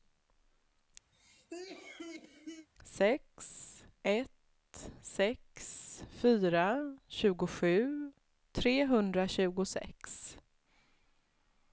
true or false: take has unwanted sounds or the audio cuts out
true